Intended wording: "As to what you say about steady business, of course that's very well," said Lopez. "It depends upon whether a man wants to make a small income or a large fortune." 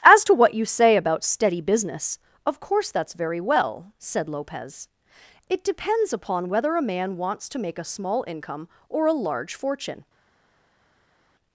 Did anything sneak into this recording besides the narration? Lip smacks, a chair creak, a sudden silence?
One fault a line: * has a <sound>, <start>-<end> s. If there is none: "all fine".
all fine